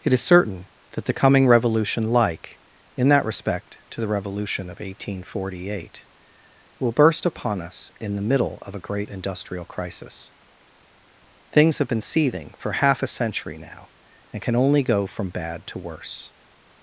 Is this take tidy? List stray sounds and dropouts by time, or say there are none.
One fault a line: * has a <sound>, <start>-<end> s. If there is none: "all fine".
all fine